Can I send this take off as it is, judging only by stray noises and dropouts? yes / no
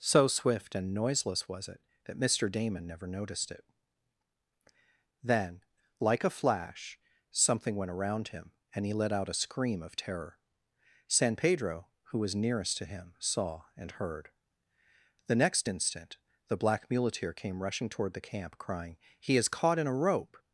yes